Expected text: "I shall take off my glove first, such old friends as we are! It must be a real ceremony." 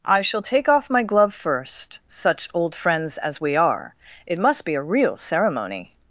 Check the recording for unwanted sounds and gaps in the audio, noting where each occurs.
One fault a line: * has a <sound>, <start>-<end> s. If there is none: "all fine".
all fine